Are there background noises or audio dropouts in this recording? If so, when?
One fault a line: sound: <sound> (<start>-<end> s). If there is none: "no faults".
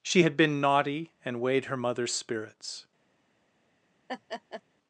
sound: laugh (4.1-4.6 s)